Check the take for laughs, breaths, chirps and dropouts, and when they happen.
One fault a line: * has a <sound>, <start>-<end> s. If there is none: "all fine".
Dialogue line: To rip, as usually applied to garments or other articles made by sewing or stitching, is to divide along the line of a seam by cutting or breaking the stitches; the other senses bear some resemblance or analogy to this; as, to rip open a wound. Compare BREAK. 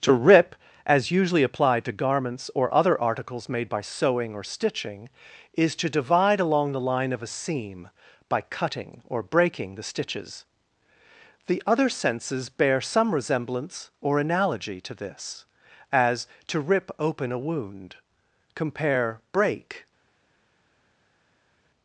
all fine